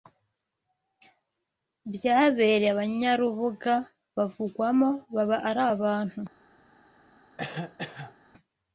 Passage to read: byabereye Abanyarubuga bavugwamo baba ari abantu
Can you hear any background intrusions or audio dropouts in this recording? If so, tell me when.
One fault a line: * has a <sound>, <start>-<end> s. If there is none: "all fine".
* has a cough, 7.4-8.2 s